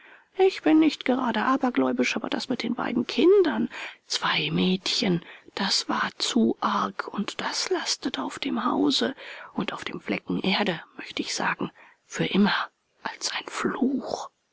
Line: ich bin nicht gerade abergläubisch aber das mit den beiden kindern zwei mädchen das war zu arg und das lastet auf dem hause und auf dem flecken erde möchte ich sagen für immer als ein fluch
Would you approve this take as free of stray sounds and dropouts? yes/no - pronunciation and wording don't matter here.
yes